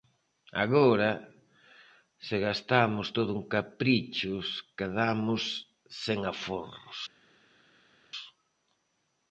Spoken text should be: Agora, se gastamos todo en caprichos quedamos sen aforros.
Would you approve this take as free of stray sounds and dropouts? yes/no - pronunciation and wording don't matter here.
yes